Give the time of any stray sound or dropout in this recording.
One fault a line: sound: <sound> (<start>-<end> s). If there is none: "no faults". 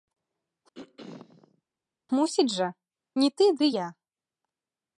sound: throat clearing (0.7-1.6 s)